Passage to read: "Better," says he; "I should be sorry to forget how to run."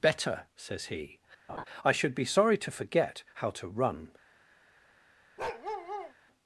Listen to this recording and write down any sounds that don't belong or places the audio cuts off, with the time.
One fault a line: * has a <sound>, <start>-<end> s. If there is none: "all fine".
* has a laugh, 1.5-1.7 s
* has a bark, 5.4-6.1 s